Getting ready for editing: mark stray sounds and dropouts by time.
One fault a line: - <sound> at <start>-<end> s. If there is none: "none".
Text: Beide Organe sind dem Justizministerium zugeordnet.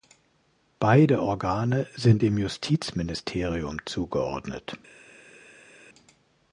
none